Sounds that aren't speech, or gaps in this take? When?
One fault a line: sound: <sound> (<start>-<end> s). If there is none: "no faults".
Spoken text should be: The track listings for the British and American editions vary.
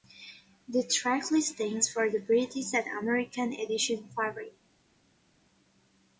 no faults